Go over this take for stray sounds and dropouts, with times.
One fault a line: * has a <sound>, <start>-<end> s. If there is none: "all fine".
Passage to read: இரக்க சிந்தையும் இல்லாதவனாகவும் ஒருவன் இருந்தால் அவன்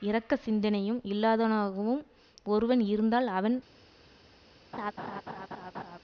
* has a laugh, 4.7-6.0 s